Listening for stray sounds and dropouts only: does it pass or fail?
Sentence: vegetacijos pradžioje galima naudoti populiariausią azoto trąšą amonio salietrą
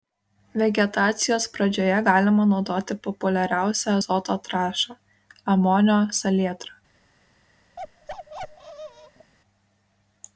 fail